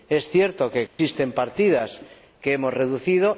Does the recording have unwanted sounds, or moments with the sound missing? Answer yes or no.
yes